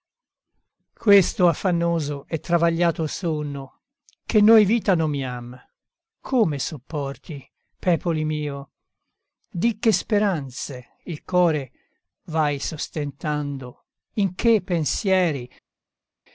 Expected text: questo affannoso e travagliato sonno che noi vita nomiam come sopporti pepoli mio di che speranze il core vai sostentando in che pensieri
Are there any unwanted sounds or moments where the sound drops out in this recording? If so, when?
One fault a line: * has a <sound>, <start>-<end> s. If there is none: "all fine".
all fine